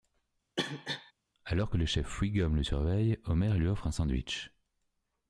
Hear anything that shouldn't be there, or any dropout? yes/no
yes